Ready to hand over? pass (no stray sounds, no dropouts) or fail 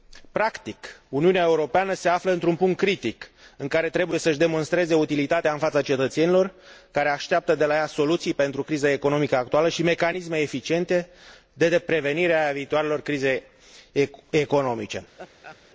fail